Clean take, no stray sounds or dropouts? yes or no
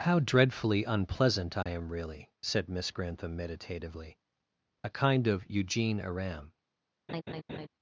no